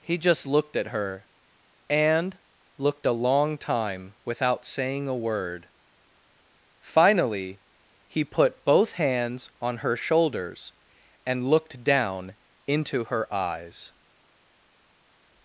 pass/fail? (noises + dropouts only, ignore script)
pass